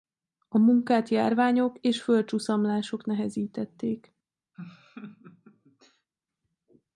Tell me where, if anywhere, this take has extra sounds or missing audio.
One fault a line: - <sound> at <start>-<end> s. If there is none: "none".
- laugh at 4.5-6.1 s